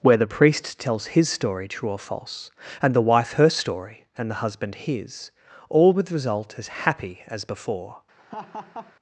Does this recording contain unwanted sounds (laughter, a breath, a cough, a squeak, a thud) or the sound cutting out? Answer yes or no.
yes